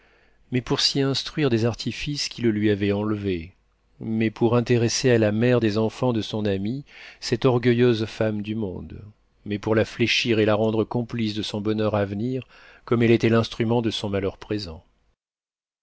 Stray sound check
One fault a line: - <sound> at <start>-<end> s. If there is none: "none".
none